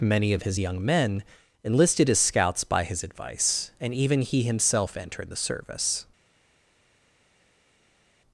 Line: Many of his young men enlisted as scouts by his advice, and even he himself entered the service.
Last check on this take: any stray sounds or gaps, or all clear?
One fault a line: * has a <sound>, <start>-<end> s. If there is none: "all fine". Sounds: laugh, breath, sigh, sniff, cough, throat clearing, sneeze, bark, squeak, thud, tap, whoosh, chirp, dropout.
all fine